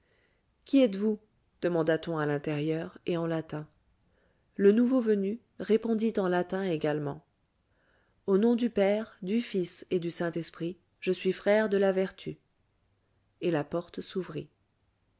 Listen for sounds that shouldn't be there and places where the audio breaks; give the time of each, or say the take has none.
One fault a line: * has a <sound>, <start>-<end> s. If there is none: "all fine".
all fine